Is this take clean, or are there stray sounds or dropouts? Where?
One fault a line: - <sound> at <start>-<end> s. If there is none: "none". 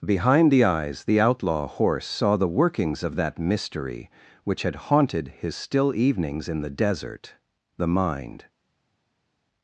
none